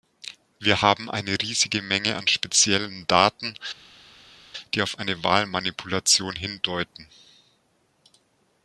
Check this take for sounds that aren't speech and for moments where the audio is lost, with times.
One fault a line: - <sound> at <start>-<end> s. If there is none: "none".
none